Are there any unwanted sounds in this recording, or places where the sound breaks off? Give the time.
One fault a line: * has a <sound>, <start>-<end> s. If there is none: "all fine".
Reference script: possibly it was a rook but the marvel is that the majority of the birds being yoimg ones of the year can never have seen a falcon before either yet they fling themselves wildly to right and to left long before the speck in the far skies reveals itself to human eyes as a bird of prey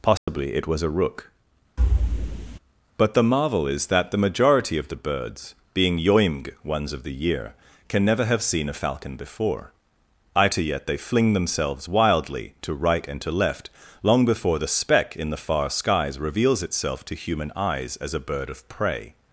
* has a dropout, 0.2-0.3 s
* has a thud, 1.8-2.6 s